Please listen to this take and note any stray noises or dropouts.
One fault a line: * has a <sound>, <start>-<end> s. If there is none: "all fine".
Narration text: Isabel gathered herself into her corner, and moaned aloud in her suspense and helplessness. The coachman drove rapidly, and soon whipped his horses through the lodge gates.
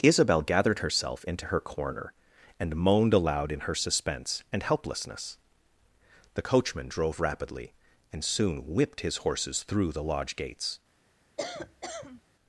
* has a cough, 11.4-12.2 s